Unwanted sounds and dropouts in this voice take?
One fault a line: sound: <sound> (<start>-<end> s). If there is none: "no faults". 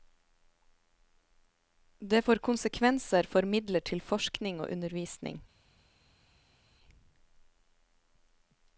no faults